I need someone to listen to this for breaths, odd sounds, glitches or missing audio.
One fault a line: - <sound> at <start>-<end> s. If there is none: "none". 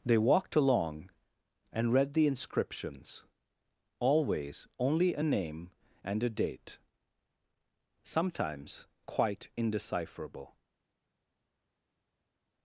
none